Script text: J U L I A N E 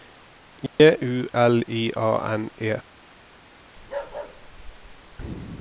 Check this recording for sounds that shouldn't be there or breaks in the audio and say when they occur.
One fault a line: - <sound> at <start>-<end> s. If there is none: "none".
- dropout at 0.7-0.8 s
- bark at 3.8-5.2 s